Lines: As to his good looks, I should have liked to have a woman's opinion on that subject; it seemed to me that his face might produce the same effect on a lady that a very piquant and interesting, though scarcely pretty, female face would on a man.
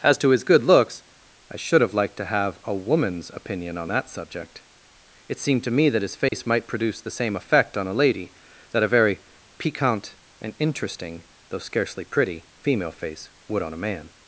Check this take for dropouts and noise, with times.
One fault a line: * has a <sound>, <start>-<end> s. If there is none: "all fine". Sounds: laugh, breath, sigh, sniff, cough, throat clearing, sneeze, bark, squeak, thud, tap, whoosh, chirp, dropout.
* has a dropout, 6.3-6.3 s